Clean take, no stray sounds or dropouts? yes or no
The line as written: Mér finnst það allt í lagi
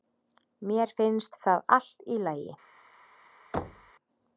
no